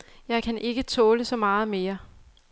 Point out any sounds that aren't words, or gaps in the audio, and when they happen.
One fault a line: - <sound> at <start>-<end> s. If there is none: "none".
none